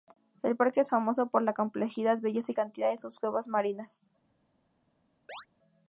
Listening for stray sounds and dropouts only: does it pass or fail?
fail